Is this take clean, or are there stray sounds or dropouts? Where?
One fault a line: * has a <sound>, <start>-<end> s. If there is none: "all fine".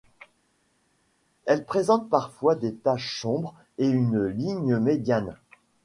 all fine